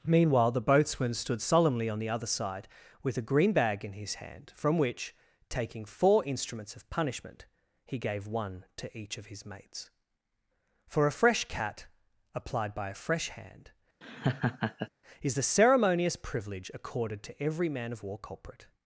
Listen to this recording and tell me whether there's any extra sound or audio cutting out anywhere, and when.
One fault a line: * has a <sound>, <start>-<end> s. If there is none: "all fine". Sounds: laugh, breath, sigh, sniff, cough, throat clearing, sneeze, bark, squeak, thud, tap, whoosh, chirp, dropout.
* has a laugh, 14.0-14.9 s